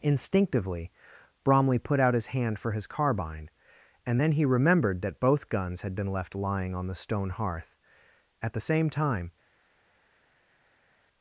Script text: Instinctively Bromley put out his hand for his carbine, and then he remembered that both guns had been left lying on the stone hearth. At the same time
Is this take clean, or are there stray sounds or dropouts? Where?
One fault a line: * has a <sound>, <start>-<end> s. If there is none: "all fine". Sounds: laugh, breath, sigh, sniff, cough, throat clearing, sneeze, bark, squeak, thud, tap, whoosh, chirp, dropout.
all fine